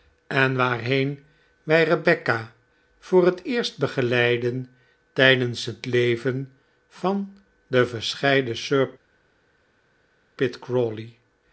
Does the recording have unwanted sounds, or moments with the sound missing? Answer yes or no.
no